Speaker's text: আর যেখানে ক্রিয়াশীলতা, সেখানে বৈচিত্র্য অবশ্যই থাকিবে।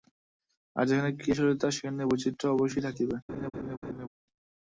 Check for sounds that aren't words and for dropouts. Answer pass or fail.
fail